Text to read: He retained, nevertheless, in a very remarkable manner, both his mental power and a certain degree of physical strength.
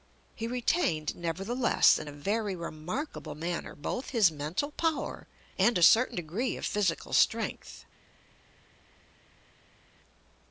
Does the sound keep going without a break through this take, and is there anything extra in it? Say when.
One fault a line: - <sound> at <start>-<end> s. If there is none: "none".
none